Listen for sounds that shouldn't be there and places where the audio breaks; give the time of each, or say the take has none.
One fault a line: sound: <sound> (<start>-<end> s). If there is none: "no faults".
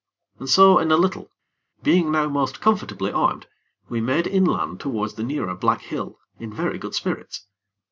no faults